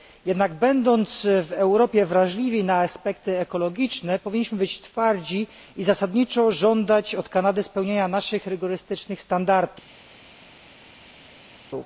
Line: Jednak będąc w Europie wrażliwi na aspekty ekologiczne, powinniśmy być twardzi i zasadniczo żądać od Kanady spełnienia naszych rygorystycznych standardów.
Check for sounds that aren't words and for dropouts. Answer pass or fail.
pass